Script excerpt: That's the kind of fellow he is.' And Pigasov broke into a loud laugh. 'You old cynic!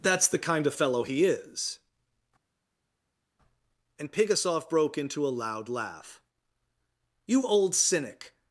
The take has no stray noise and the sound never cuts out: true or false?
true